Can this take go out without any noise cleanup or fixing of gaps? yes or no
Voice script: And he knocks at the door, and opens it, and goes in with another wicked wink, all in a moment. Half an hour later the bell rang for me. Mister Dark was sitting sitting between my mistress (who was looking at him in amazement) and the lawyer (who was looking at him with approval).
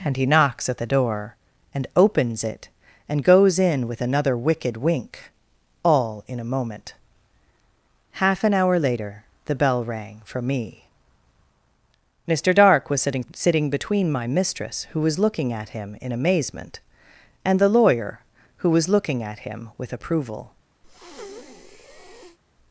no